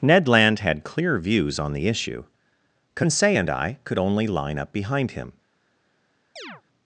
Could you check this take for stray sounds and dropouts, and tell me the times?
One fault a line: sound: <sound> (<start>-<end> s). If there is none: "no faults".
sound: chirp (6.4-6.6 s)